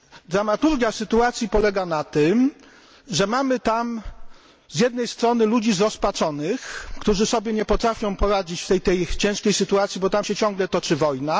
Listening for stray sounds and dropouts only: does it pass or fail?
pass